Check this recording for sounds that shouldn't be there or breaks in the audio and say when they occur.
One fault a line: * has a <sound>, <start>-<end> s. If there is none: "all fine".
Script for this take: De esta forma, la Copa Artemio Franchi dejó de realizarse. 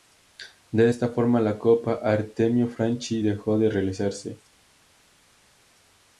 all fine